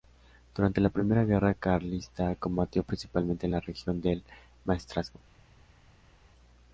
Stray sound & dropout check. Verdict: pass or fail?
pass